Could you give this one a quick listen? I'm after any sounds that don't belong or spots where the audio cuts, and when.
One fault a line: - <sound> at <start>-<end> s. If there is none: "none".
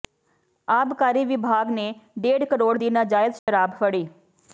- dropout at 3.4-3.5 s